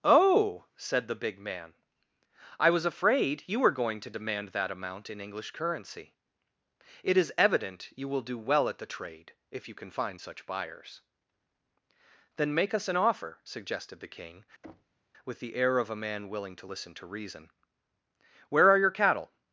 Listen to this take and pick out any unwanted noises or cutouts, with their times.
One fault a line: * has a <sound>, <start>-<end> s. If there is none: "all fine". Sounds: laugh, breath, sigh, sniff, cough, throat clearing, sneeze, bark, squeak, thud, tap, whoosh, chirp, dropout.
* has a thud, 14.6-15.0 s